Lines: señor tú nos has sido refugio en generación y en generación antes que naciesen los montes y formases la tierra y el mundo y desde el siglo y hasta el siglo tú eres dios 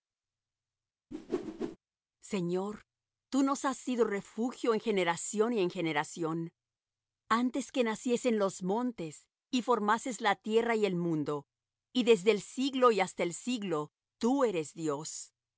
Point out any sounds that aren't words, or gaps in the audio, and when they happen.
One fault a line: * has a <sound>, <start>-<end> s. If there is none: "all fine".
* has a whoosh, 1.1-1.8 s